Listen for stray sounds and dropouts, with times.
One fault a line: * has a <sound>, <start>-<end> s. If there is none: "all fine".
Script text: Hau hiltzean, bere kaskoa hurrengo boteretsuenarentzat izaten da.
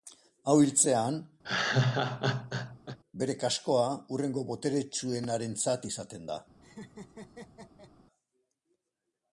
* has a laugh, 1.4-3.0 s
* has a laugh, 6.6-7.9 s